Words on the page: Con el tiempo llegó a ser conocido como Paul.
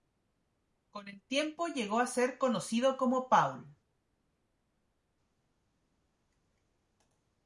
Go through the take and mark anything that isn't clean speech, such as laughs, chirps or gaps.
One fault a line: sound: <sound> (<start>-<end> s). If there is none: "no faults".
no faults